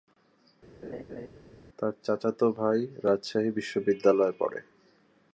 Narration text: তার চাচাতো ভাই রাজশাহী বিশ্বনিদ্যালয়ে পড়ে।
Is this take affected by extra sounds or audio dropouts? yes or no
yes